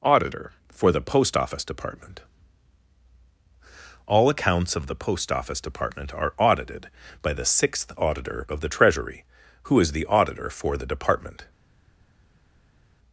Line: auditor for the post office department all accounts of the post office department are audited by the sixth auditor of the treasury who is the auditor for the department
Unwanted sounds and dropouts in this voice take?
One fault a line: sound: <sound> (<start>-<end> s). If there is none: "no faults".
no faults